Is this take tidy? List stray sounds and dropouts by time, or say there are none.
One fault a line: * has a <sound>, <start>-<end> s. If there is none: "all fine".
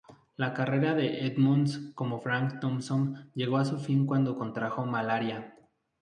all fine